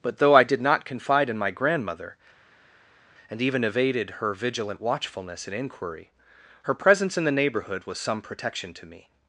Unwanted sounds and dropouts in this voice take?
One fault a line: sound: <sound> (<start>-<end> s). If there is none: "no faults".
no faults